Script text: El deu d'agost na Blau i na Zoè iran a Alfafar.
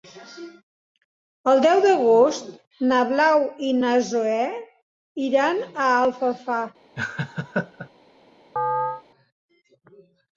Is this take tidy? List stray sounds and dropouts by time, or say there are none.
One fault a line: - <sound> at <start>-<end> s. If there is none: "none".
- laugh at 7.0-7.9 s
- chirp at 8.6-9.0 s